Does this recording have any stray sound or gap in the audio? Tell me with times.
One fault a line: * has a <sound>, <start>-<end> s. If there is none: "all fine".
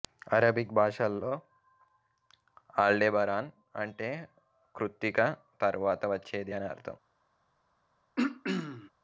* has a throat clearing, 8.2-8.9 s